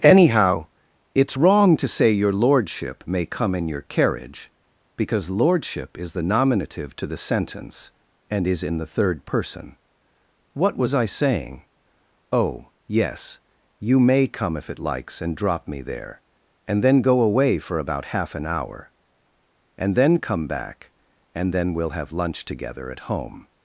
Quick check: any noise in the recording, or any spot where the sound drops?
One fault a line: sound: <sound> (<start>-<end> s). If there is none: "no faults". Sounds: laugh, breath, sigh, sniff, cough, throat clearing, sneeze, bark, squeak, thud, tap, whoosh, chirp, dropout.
no faults